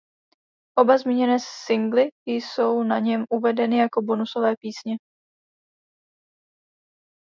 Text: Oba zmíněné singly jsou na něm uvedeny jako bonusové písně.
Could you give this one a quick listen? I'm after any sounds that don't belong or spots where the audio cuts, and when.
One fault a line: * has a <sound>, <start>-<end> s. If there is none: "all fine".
all fine